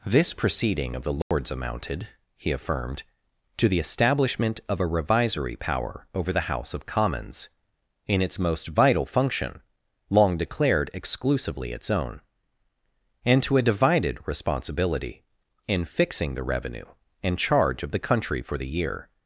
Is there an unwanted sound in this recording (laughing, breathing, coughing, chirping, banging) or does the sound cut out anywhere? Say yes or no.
yes